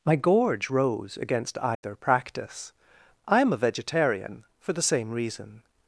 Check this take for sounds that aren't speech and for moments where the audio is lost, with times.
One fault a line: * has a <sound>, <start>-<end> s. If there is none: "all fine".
* has a dropout, 1.7-1.8 s